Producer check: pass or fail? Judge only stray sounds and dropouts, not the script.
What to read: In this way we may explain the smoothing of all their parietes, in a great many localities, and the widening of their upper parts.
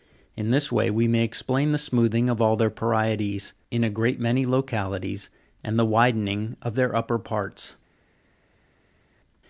pass